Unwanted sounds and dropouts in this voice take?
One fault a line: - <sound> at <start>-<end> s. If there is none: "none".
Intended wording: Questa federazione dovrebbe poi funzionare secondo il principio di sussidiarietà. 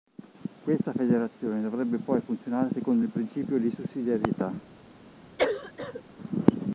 - cough at 5.4-6.0 s